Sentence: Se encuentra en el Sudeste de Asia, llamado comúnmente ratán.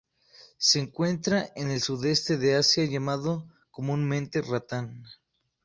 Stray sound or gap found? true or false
false